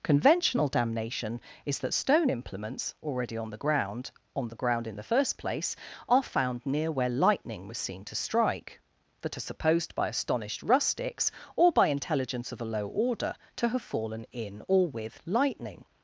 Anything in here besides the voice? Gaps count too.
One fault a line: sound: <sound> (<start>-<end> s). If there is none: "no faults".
no faults